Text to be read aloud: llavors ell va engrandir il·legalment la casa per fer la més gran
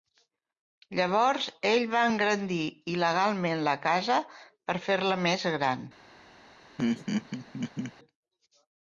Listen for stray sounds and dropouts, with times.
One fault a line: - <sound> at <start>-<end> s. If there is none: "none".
- laugh at 6.8-7.9 s